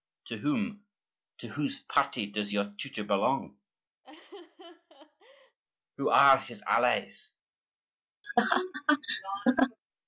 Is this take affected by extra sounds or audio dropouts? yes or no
yes